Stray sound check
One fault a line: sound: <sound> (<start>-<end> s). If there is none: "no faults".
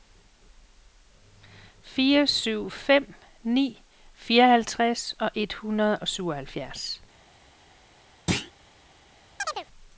sound: thud (8.3-8.5 s)
sound: chirp (9.4-9.7 s)